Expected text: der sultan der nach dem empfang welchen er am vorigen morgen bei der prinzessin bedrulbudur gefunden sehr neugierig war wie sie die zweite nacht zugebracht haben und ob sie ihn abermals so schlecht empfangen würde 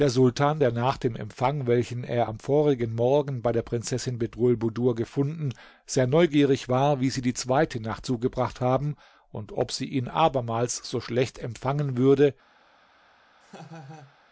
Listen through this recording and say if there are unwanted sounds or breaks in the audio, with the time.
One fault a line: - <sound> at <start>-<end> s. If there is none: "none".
- laugh at 13.4-14.2 s